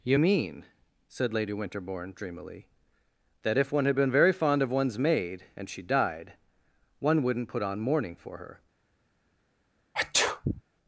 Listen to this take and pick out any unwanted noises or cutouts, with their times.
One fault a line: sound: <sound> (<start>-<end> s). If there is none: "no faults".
sound: sneeze (9.9-10.6 s)